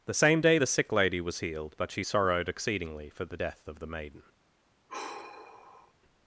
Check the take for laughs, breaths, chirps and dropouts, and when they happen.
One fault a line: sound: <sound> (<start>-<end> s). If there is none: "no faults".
sound: sigh (4.9-5.9 s)